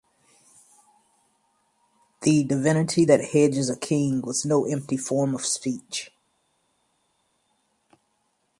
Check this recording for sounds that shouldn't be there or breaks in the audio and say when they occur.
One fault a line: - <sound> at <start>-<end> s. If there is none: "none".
none